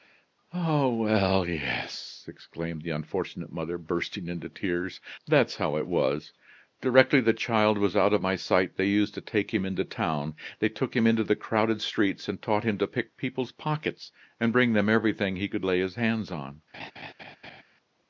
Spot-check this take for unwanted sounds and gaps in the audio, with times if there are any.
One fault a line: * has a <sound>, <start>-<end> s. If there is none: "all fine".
* has a laugh, 16.7-17.6 s